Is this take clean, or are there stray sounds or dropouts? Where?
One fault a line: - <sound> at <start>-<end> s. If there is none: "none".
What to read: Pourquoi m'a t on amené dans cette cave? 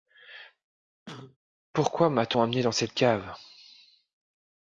- cough at 1.1-1.4 s